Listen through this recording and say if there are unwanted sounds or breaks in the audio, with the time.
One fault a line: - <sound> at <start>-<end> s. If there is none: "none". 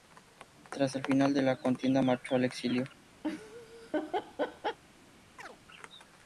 - laugh at 3.2-4.8 s
- chirp at 5.4-5.6 s